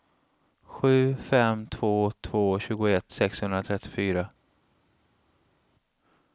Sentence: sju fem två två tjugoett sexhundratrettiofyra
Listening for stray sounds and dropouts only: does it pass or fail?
pass